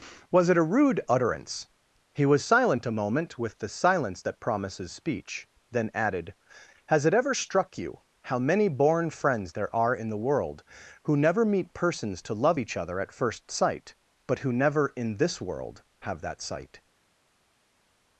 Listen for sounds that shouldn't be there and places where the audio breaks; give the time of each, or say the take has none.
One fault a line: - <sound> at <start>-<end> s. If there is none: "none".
none